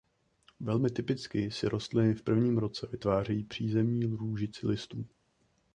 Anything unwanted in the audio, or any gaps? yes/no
no